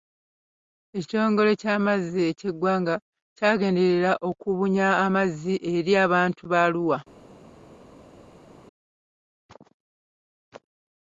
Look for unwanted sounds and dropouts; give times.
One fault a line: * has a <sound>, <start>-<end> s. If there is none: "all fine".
all fine